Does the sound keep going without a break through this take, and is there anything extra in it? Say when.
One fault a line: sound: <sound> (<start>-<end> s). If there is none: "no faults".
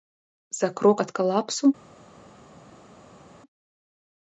no faults